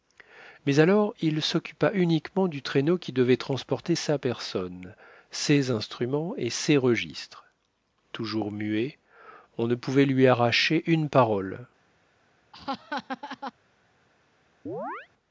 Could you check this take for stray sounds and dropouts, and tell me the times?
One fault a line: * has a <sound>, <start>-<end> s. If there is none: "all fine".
* has a laugh, 12.5-13.5 s
* has a chirp, 14.7-15.1 s